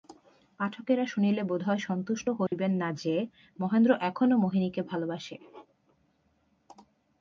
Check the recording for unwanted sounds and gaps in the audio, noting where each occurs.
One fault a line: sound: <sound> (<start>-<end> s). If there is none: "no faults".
sound: dropout (2.5-2.5 s)